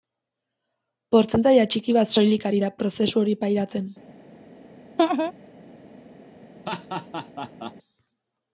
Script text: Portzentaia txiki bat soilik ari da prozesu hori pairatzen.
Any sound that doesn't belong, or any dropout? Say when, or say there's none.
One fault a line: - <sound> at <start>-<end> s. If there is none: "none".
- laugh at 5.0-5.3 s
- laugh at 6.7-7.7 s